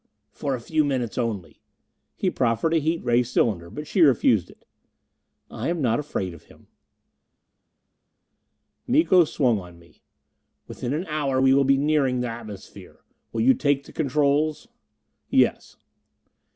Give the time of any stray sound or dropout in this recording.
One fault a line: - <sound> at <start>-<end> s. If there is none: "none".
none